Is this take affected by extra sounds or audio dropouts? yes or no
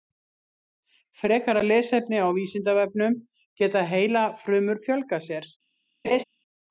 yes